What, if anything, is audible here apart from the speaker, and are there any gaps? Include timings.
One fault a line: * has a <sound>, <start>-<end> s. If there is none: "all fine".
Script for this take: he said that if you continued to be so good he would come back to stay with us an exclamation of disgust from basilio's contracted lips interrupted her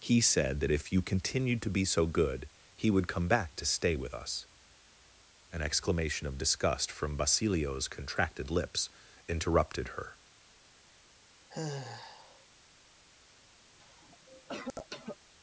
* has a sigh, 11.5-12.5 s
* has a cough, 13.8-15.2 s